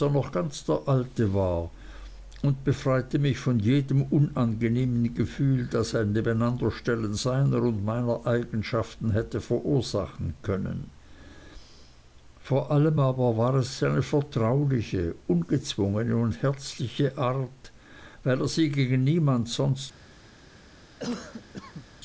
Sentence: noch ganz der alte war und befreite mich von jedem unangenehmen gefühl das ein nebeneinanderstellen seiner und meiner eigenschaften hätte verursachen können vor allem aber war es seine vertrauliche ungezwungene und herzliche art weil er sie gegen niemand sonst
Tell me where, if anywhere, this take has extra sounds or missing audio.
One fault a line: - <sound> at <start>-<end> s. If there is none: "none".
- cough at 21.0-21.9 s